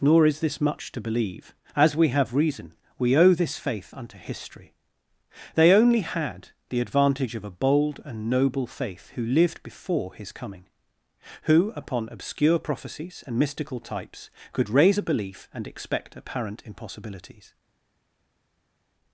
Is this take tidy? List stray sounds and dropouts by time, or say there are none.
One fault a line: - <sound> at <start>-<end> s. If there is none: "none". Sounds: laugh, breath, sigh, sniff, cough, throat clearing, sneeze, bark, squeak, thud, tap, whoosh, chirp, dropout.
none